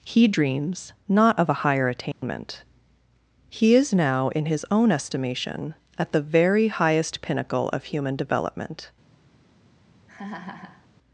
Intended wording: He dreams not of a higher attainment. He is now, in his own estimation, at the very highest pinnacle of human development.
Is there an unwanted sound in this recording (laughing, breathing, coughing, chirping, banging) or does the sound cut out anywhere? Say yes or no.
yes